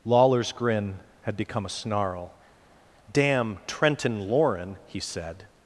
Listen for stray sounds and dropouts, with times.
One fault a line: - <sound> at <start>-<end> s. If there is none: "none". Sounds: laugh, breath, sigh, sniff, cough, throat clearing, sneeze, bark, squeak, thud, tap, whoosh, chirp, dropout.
none